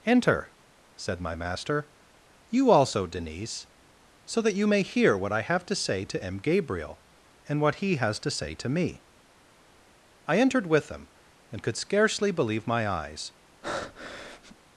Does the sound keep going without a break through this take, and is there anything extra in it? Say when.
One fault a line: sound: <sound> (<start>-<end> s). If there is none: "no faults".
sound: breath (13.6-14.6 s)